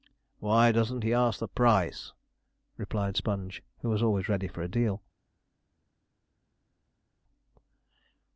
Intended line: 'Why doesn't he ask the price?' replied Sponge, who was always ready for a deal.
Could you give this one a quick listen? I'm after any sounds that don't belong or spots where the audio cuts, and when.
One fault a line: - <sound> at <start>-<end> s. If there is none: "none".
none